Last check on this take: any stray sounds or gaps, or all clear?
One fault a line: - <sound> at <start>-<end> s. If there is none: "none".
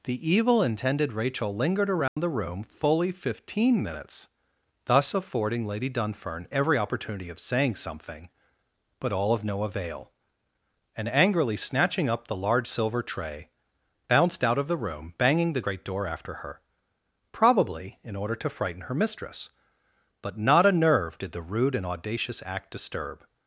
- dropout at 2.1-2.2 s